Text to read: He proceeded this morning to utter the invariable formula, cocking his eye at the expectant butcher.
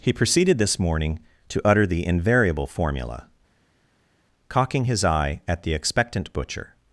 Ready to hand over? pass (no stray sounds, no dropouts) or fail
pass